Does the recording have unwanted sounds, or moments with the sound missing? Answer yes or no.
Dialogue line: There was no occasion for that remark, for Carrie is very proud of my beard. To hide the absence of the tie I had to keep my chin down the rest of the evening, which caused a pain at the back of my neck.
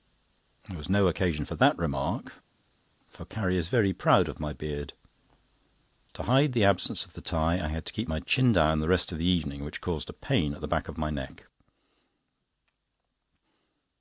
no